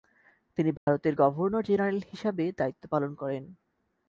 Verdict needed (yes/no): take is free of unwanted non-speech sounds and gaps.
no